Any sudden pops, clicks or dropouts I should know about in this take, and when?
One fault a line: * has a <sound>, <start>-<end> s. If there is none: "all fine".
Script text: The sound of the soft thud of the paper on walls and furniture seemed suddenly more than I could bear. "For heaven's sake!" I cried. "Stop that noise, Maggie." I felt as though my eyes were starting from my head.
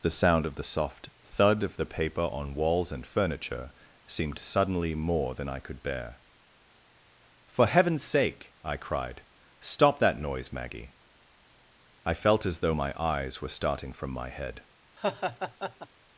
* has a laugh, 15.0-15.9 s